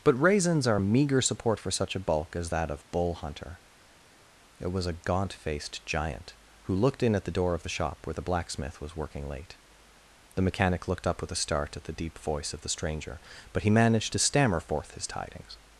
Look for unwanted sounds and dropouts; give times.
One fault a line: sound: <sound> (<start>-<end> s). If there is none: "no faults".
no faults